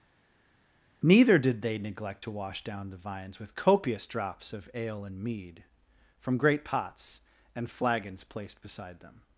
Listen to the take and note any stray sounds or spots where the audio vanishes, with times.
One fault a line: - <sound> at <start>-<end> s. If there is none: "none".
none